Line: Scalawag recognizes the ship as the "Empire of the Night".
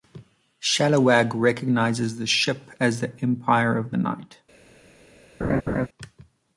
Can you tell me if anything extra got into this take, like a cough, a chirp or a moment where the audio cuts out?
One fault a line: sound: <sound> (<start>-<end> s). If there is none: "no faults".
sound: laugh (5.4-5.9 s)